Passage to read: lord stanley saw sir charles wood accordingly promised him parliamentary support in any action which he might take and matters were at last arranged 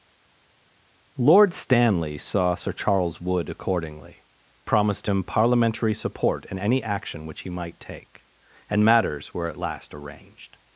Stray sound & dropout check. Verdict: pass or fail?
pass